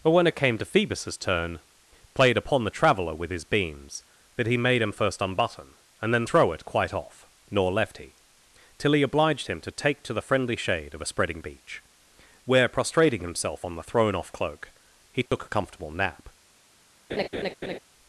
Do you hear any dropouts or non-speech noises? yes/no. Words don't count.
yes